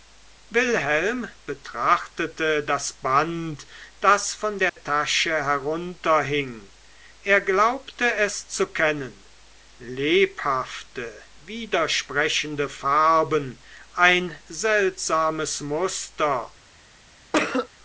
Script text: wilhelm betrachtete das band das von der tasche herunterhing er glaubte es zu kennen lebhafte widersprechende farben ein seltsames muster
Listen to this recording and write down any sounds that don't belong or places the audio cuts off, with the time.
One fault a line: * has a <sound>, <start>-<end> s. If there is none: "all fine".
* has a dropout, 4.7-4.8 s
* has a cough, 17.3-17.7 s